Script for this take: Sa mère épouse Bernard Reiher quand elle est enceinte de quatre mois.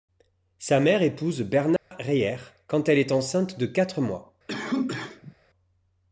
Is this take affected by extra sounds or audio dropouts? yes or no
yes